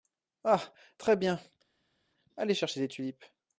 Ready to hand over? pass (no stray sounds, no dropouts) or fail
pass